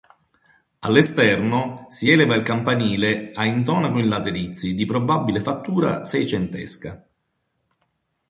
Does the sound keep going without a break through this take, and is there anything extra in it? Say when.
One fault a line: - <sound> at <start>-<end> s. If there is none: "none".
none